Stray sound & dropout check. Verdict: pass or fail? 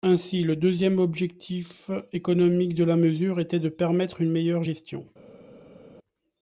pass